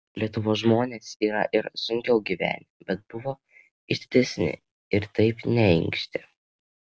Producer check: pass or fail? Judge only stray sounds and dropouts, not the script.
pass